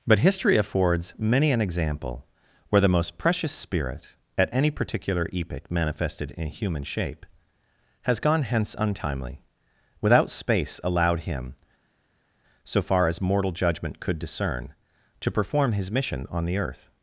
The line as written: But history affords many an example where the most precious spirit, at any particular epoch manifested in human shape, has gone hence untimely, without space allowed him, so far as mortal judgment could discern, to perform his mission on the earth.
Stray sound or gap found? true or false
false